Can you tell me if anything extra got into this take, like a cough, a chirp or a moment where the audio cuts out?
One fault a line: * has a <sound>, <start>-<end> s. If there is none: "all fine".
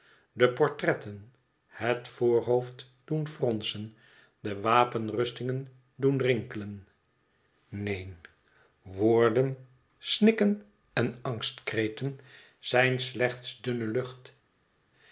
all fine